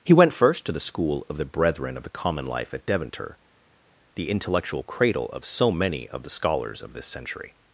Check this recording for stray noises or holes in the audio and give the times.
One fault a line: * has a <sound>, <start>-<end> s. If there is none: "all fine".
all fine